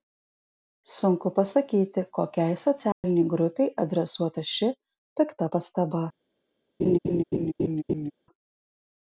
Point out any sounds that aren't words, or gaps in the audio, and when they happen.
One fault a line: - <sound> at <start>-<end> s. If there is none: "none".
- dropout at 2.9-3.0 s
- laugh at 6.8-8.1 s